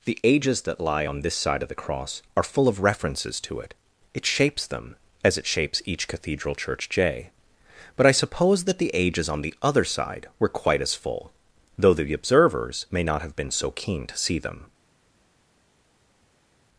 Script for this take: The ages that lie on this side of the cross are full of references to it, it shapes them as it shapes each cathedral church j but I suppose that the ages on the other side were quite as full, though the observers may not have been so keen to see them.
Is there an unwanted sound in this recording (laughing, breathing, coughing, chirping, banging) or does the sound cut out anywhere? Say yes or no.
no